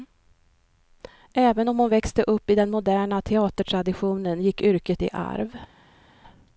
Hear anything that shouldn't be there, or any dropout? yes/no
no